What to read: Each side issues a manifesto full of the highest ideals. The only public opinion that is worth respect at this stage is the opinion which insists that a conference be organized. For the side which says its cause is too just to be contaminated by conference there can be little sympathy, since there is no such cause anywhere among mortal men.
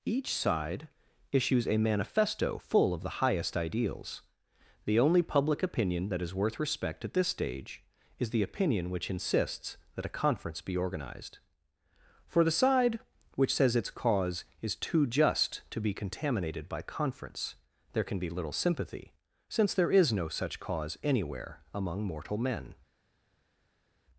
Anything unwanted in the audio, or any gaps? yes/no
no